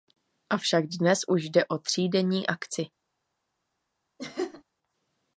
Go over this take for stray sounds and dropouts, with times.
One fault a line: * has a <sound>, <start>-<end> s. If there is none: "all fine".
* has a laugh, 4.2-4.6 s